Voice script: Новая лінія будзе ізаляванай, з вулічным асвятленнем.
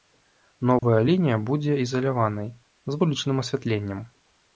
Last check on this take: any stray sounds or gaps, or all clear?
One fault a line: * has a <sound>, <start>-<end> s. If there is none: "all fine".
* has a dropout, 0.8-0.8 s